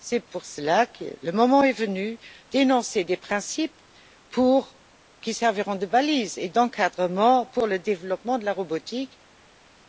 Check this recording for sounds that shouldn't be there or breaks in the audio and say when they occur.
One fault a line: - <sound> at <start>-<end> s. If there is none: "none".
none